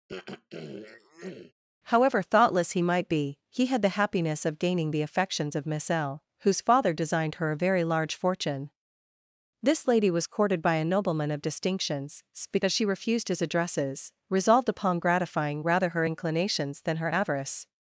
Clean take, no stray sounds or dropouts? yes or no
no